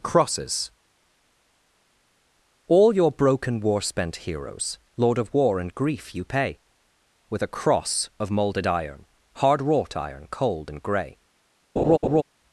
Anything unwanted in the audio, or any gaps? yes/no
yes